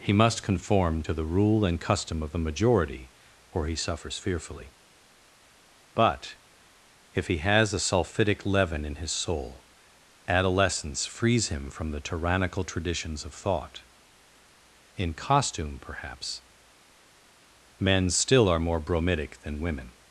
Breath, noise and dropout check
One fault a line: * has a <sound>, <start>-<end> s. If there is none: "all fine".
all fine